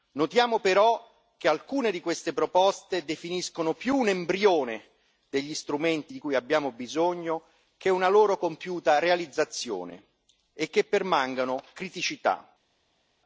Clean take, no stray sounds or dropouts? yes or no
yes